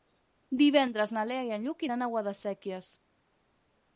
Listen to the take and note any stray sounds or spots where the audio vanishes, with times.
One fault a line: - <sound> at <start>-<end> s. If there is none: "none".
none